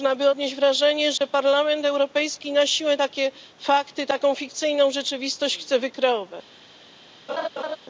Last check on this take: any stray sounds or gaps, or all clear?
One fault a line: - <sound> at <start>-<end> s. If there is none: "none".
- dropout at 1.2-1.2 s
- laugh at 7.3-7.8 s